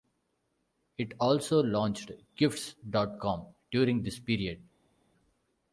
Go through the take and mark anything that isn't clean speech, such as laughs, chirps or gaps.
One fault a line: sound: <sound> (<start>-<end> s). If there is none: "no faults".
no faults